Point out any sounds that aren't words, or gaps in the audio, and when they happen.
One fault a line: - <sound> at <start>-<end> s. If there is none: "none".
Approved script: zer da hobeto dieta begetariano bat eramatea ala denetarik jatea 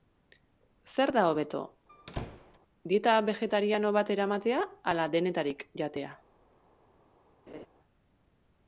- squeak at 1.9-2.6 s
- laugh at 7.5-7.7 s